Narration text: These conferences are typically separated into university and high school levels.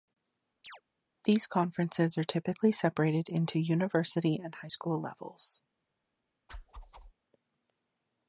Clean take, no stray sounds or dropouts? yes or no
no